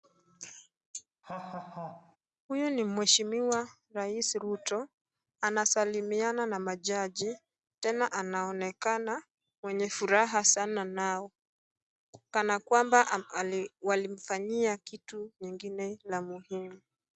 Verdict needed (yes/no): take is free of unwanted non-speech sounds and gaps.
no